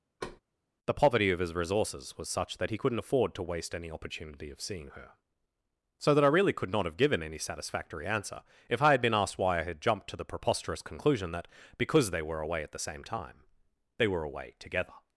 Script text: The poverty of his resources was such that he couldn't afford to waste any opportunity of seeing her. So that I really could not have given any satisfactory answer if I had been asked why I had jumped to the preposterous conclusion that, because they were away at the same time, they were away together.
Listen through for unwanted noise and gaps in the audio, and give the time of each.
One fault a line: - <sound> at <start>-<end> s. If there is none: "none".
- thud at 0.2-0.4 s